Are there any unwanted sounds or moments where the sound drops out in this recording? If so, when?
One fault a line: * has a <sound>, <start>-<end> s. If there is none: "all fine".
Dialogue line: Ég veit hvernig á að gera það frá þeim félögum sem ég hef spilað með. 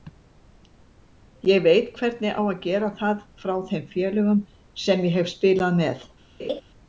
* has a laugh, 6.4-6.6 s